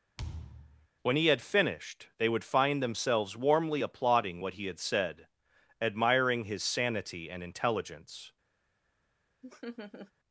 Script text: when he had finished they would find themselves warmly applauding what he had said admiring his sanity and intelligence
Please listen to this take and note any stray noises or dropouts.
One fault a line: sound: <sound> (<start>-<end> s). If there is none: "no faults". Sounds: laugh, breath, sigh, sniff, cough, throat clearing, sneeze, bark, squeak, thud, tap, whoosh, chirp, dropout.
sound: thud (0.2-0.9 s)
sound: laugh (9.4-10.1 s)